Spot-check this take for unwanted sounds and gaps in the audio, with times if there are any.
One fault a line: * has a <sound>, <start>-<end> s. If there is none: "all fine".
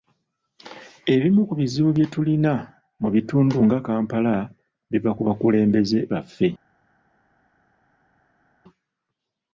all fine